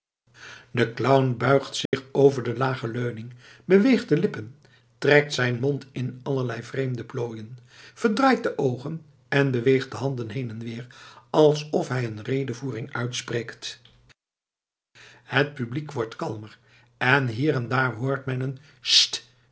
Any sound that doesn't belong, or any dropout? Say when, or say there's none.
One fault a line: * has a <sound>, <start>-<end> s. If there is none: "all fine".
* has a dropout, 1.9-1.9 s